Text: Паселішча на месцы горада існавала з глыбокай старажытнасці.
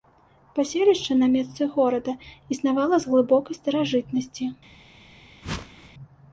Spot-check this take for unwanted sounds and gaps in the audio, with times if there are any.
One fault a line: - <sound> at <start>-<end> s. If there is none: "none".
- whoosh at 5.4-5.9 s